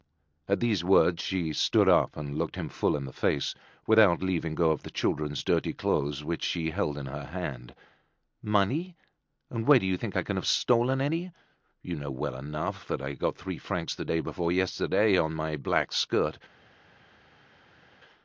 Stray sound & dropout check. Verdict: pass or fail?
pass